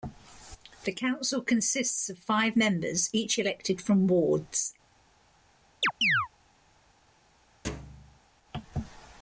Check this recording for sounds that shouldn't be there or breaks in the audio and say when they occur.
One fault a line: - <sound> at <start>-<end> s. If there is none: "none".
- chirp at 5.8-6.3 s
- thud at 7.6-8.2 s